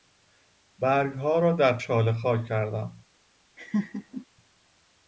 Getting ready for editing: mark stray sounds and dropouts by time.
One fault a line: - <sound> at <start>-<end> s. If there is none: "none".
- laugh at 3.6-4.3 s